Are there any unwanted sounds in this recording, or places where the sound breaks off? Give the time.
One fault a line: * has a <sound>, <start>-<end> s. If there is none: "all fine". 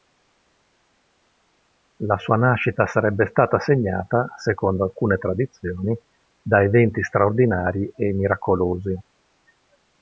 all fine